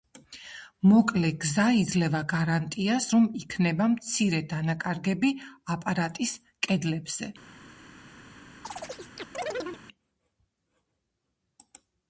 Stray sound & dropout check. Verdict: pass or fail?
fail